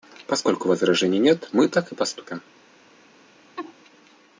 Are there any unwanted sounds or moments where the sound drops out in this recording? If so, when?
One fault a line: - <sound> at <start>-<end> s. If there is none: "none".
- laugh at 3.6-3.7 s